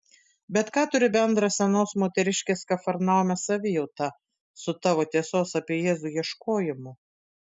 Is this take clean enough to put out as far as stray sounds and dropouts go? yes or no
yes